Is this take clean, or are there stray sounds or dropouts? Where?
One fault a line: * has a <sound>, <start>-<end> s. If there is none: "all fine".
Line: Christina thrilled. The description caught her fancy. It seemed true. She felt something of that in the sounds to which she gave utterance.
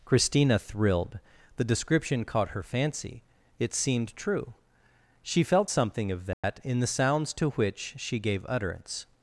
* has a dropout, 6.3-6.4 s